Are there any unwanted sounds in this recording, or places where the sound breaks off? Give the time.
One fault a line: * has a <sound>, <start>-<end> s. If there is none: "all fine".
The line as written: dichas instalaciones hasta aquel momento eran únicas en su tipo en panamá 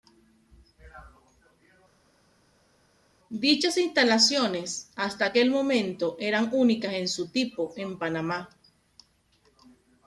all fine